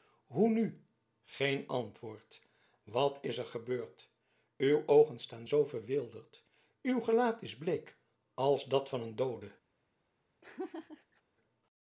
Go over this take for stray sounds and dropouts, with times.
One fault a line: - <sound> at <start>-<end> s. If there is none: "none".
- laugh at 10.4-11.2 s